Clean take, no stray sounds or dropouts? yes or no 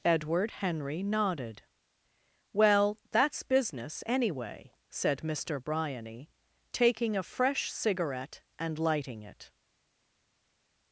yes